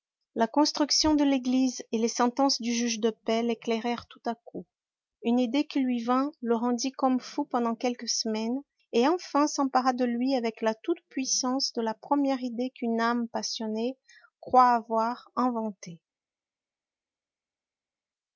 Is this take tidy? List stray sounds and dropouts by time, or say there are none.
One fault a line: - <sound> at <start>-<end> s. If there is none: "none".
none